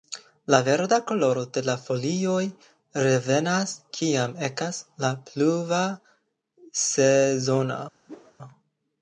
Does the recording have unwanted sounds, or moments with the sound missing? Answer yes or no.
yes